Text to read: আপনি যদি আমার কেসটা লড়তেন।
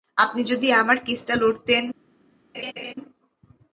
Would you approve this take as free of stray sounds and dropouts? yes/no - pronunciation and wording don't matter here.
no